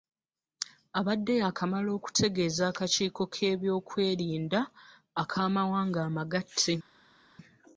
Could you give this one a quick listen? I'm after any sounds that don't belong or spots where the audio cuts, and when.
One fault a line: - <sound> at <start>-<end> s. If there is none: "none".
none